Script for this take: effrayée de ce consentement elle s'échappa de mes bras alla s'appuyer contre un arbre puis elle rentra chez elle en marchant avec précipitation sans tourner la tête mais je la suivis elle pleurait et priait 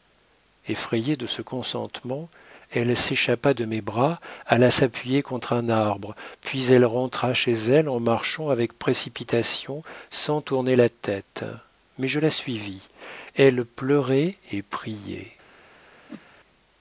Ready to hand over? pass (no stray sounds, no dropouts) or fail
fail